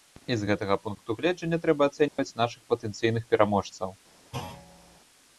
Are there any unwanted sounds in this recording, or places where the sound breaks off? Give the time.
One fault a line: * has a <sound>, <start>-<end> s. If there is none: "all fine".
* has a dropout, 2.1-2.2 s
* has a thud, 4.3-5.0 s